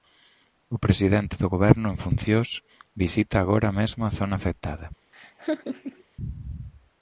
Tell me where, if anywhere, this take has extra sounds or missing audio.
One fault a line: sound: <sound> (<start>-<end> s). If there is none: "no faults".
sound: laugh (5.1-6.0 s)